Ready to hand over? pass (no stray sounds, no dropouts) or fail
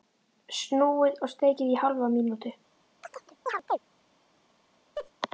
fail